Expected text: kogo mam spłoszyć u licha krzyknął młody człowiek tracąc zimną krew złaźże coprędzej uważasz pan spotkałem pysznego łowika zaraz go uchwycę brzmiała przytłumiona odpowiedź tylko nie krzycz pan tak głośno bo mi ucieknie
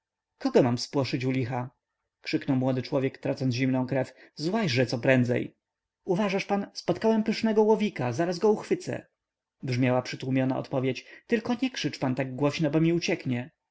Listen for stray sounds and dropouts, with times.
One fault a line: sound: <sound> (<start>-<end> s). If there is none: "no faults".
no faults